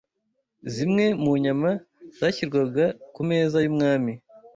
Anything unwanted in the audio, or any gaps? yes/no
no